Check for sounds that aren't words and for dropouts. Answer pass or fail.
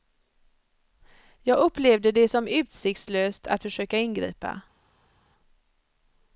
pass